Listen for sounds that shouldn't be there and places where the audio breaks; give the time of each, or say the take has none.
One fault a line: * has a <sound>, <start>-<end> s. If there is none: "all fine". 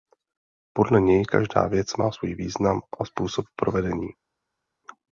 all fine